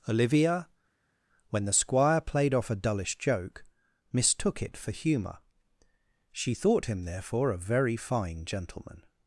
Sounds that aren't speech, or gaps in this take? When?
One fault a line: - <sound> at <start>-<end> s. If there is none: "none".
none